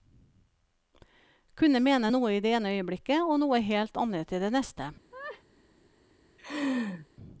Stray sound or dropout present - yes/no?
yes